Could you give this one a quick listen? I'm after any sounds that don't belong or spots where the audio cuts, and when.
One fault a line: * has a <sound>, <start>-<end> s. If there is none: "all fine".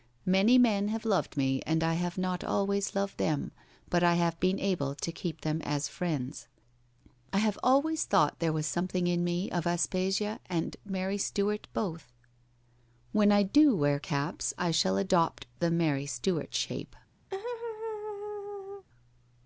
* has a laugh, 17.3-18.9 s